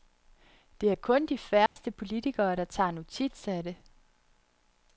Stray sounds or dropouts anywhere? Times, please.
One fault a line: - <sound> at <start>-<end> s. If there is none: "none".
- dropout at 1.7-1.8 s